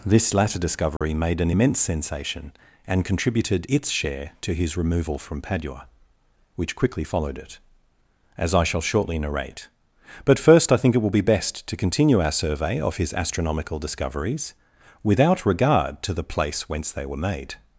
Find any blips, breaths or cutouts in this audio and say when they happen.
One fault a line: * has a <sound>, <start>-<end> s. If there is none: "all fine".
* has a dropout, 1.0-1.0 s